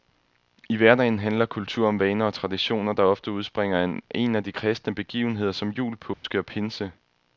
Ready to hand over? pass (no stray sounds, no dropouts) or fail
fail